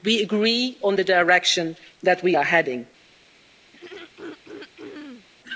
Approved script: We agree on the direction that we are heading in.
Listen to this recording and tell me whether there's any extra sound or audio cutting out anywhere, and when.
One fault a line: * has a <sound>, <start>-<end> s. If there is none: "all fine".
* has a throat clearing, 3.7-5.3 s